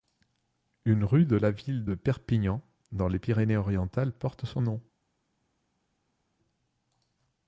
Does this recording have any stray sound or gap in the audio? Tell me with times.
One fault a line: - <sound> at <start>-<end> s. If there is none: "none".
none